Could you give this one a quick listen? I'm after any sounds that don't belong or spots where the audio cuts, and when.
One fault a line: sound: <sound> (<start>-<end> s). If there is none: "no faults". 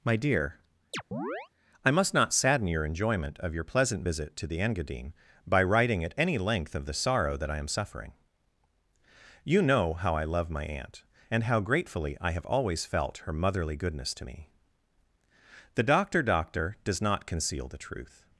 sound: chirp (0.9-1.5 s)